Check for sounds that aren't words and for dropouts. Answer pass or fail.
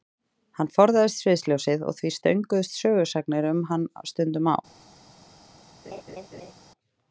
fail